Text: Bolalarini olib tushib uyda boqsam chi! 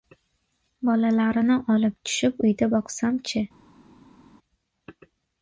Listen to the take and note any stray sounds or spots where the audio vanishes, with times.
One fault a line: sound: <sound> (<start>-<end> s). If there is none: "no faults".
no faults